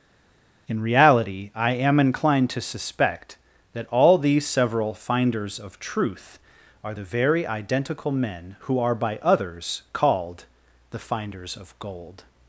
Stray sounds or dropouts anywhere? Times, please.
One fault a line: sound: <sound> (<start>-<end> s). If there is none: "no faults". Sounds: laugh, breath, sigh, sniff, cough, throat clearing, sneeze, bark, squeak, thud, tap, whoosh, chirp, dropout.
no faults